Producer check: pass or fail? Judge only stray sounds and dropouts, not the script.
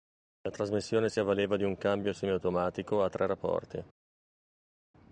pass